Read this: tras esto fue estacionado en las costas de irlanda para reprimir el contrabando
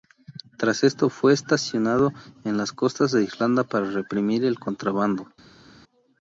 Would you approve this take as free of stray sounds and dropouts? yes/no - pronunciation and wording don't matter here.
yes